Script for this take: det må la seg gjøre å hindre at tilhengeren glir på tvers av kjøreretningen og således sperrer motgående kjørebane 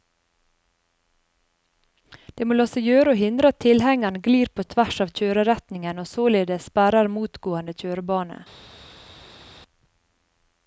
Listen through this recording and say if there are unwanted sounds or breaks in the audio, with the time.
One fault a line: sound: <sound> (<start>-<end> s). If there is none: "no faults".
no faults